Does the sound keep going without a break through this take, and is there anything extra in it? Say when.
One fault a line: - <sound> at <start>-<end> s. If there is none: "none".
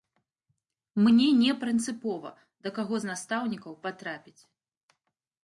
none